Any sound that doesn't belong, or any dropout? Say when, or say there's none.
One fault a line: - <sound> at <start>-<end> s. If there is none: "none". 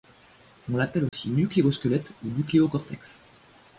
- dropout at 1.1-1.1 s